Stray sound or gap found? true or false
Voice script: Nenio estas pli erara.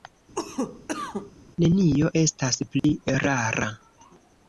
true